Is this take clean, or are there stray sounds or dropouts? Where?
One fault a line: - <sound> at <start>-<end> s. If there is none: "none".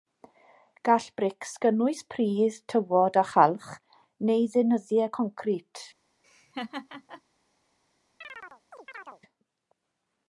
- laugh at 6.2-7.2 s
- chirp at 8.2-9.2 s